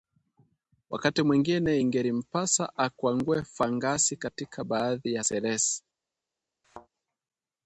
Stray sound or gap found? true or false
true